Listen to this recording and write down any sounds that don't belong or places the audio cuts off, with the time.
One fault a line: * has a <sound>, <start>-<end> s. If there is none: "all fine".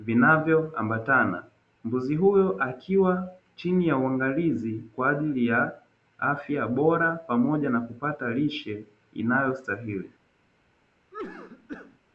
* has a cough, 11.1-12.0 s